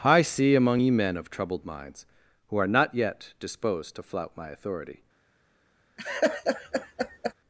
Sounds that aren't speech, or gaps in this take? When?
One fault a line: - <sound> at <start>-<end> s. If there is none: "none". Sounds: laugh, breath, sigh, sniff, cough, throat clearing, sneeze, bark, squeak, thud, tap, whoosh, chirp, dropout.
- laugh at 6.0-7.3 s